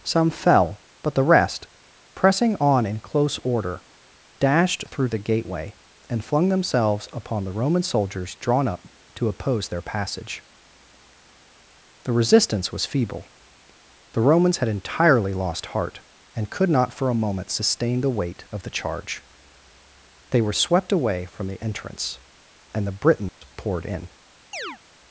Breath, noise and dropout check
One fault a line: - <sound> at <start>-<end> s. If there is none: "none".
- dropout at 23.3-23.4 s
- chirp at 24.5-24.8 s